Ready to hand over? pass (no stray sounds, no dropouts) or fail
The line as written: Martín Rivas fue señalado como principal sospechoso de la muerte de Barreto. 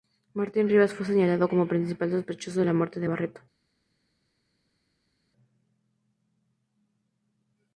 pass